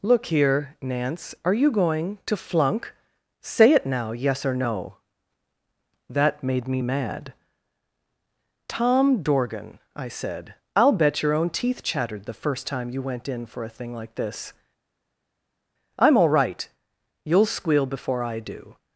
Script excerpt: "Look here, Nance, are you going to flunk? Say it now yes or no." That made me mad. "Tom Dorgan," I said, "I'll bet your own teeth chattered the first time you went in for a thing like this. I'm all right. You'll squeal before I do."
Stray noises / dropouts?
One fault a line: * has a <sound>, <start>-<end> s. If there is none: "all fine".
all fine